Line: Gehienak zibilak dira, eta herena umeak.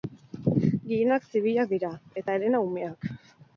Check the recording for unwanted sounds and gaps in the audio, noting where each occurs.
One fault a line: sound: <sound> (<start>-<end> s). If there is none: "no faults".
no faults